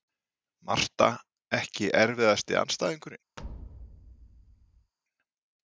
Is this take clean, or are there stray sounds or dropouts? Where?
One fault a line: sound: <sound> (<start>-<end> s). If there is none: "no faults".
sound: thud (3.4-4.9 s)